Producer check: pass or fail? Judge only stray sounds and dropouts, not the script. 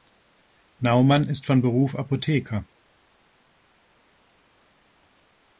pass